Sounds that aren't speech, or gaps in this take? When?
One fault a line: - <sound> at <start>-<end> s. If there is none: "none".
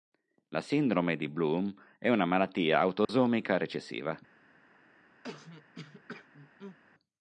- dropout at 3.0-3.1 s
- throat clearing at 5.2-6.8 s